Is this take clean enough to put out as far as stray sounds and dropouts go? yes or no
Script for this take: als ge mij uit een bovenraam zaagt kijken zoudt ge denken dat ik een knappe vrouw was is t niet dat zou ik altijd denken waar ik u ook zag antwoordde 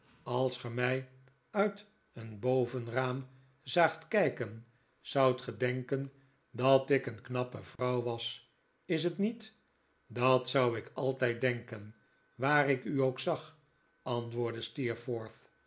no